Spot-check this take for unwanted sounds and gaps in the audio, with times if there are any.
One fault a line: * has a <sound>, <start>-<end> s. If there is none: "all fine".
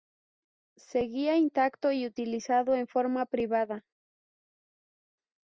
all fine